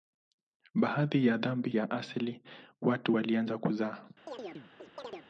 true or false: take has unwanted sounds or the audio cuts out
true